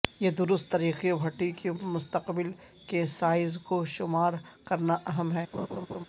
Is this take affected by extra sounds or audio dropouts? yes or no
yes